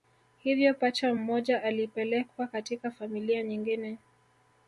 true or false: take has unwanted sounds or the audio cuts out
false